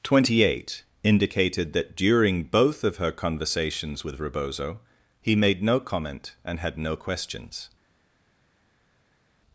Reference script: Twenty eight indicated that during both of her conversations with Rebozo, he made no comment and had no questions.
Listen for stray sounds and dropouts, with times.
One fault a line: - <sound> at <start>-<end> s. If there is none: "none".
none